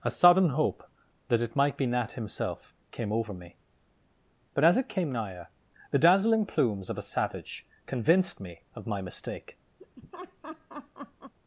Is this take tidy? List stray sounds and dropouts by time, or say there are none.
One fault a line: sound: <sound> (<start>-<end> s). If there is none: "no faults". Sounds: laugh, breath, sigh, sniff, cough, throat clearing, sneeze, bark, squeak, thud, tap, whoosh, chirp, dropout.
sound: laugh (9.8-11.3 s)